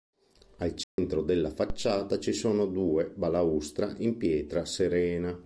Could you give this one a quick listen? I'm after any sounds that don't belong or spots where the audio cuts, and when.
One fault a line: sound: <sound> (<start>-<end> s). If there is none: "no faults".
sound: dropout (0.8-1.0 s)